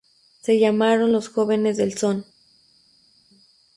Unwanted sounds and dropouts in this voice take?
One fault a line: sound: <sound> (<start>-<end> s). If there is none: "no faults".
no faults